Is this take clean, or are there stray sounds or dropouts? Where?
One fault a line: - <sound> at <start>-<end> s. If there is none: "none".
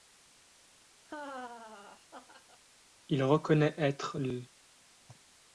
- laugh at 1.0-2.6 s